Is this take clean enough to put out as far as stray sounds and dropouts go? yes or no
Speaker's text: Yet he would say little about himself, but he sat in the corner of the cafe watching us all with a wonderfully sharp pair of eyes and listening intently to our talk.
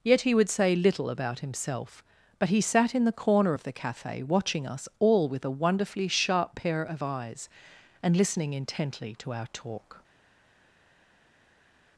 yes